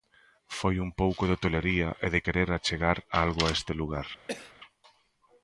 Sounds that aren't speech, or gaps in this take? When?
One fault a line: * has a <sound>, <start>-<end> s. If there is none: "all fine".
* has a cough, 4.3-4.5 s